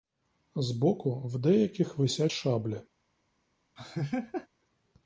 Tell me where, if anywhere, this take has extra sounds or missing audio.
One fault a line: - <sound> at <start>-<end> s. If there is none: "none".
- laugh at 3.8-4.5 s